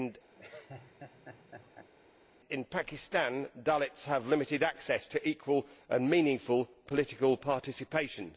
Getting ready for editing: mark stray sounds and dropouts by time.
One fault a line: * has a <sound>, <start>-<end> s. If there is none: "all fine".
* has a laugh, 0.4-1.9 s